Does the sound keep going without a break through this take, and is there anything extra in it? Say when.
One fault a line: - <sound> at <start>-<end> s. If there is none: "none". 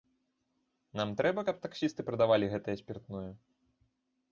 none